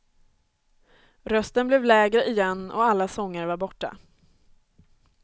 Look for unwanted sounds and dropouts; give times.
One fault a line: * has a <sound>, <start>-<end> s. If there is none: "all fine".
all fine